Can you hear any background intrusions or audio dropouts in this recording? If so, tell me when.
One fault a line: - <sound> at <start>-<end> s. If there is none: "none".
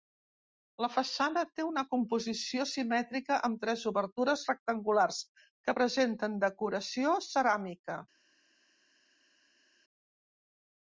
none